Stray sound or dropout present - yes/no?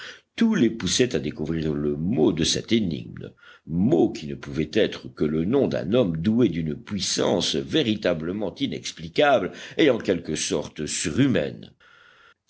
no